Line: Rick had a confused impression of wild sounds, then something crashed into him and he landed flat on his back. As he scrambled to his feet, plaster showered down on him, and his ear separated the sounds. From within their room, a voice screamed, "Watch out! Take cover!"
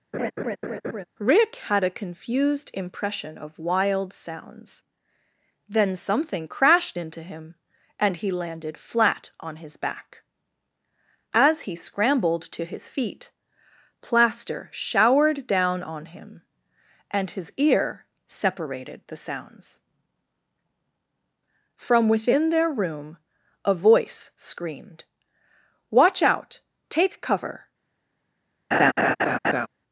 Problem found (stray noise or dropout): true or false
true